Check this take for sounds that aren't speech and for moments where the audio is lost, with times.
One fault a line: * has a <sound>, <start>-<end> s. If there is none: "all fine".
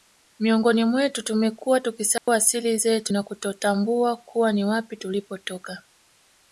* has a dropout, 2.2-2.3 s